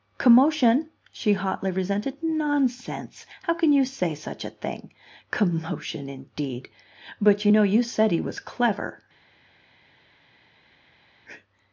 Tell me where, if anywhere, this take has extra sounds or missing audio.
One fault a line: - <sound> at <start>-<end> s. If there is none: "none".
none